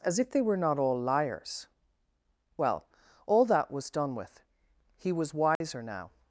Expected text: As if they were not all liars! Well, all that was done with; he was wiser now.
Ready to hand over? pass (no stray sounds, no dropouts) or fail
fail